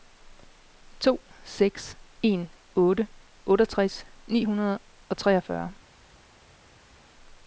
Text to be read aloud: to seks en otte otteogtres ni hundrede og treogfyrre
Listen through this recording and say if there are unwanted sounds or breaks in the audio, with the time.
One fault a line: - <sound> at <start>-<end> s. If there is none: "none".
none